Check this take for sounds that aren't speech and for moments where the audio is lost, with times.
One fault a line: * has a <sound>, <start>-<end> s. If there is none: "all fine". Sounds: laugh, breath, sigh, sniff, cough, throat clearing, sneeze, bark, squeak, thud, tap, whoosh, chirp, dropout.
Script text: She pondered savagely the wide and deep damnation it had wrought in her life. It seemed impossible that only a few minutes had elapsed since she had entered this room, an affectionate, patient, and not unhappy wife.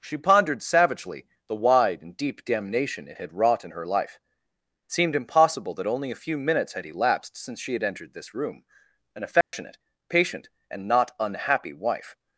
* has a dropout, 9.4-9.5 s